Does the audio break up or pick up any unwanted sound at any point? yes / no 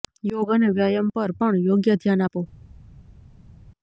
no